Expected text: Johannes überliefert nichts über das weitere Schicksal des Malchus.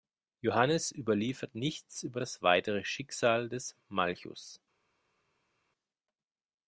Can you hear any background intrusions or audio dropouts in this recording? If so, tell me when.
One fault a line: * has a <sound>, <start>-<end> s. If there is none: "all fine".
all fine